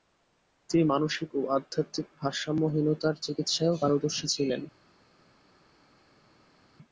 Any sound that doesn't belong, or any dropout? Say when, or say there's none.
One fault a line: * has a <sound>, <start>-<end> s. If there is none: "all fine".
all fine